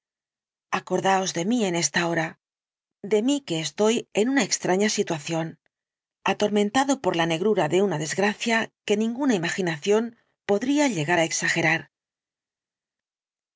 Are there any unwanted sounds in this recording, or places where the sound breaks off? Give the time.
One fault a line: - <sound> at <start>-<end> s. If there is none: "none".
none